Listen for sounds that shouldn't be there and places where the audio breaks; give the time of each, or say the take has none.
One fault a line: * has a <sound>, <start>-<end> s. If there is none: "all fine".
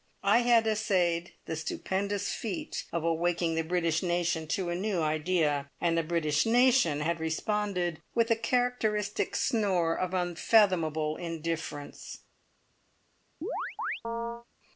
* has a chirp, 13.4-14.5 s